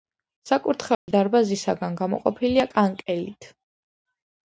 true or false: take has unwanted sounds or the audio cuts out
true